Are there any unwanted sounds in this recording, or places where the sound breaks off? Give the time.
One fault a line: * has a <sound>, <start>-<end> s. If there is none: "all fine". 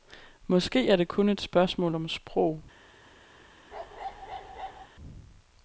* has a bark, 3.7-4.9 s